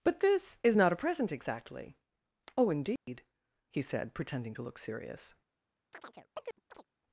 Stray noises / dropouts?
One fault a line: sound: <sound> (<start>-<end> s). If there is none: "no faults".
sound: dropout (3.0-3.1 s)
sound: chirp (5.9-6.9 s)